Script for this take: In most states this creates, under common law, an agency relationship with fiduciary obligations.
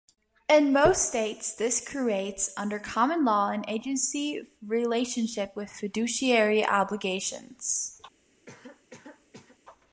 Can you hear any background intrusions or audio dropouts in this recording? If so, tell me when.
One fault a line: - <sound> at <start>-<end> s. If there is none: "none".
- cough at 8.5-9.6 s